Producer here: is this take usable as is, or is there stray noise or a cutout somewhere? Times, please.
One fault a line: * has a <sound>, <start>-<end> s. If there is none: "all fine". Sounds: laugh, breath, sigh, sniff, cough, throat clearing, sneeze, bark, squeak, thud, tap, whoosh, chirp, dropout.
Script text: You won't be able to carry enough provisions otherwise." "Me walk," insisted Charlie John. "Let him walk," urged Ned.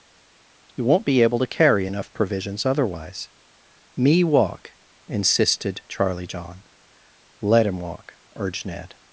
all fine